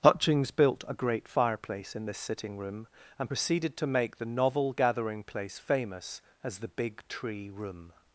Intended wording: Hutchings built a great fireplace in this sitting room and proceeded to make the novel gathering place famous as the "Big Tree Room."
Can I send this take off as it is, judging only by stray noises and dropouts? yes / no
yes